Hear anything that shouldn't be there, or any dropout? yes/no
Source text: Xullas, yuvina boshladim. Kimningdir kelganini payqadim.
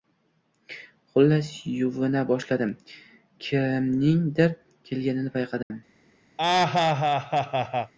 yes